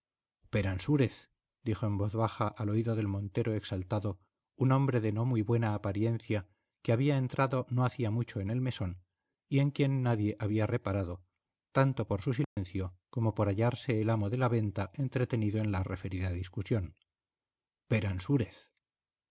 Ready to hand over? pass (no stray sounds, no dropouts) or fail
fail